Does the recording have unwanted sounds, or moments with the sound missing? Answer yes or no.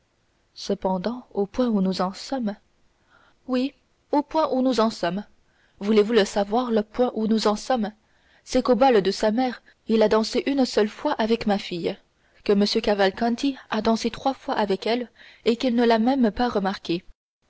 no